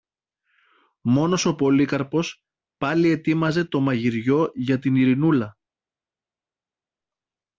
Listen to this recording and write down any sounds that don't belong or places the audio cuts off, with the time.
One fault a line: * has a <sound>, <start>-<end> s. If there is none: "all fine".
all fine